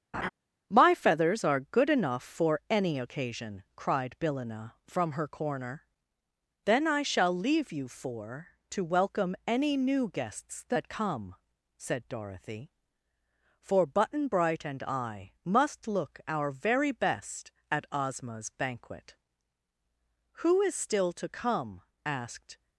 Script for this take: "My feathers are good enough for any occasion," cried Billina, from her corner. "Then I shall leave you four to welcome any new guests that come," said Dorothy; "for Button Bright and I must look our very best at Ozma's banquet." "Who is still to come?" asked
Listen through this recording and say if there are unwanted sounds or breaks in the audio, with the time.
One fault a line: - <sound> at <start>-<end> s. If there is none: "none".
- laugh at 0.1-0.3 s